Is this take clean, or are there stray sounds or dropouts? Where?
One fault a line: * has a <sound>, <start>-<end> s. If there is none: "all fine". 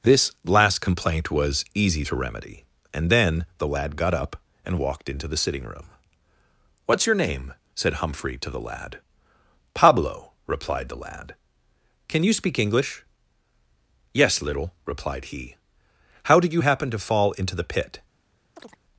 * has a chirp, 18.6-18.8 s